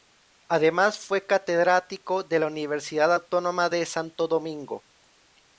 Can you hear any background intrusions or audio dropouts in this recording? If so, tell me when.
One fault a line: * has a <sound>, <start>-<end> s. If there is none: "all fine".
all fine